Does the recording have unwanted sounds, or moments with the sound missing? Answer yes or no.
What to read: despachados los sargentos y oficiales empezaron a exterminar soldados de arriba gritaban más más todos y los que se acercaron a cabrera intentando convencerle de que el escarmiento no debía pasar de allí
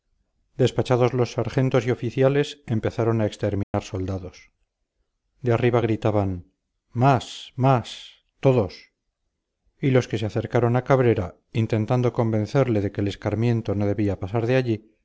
yes